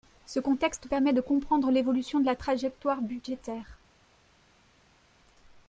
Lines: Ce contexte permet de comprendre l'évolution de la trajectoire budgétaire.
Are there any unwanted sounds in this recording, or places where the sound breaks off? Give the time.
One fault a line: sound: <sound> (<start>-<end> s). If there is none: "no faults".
no faults